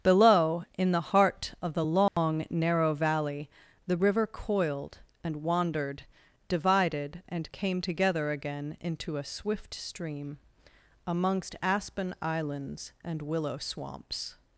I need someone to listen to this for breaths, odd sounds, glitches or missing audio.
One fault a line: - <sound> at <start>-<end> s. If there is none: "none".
- dropout at 2.1-2.2 s